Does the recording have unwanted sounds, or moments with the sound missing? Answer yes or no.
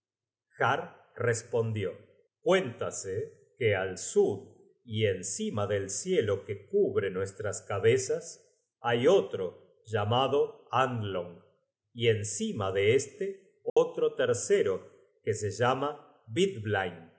yes